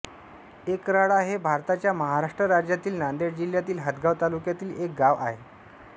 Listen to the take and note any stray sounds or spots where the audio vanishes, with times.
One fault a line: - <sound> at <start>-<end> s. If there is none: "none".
none